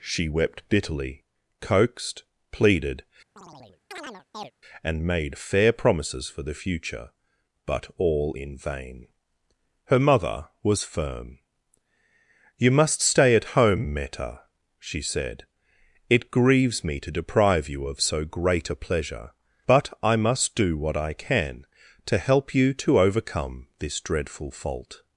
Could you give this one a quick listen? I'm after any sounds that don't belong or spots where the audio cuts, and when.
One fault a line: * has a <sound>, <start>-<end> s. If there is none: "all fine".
* has a chirp, 3.4-4.5 s